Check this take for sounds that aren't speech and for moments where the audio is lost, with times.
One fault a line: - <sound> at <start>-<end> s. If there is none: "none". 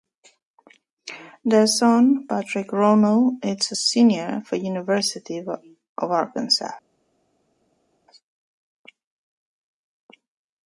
none